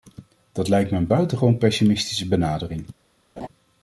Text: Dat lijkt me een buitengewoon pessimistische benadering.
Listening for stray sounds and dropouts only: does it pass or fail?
fail